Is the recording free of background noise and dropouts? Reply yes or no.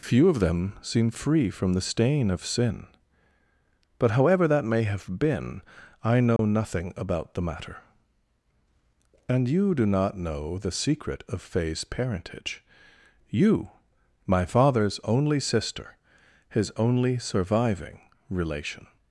no